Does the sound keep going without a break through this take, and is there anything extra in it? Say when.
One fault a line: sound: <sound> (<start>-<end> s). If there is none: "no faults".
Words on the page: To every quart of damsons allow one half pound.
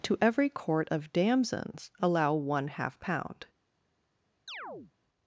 sound: chirp (4.5-4.9 s)